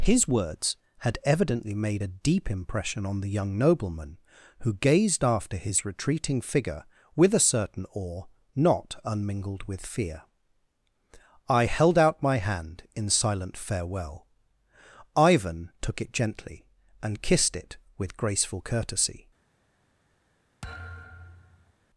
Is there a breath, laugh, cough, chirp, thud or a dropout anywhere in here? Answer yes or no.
yes